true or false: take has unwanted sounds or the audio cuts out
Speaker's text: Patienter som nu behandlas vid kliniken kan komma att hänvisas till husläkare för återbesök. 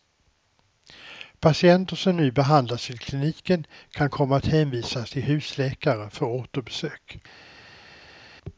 false